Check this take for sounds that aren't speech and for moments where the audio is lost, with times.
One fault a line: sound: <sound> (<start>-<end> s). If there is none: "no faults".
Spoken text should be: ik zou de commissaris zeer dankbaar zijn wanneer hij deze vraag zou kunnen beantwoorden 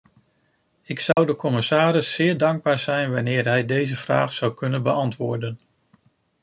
sound: dropout (1.1-1.2 s)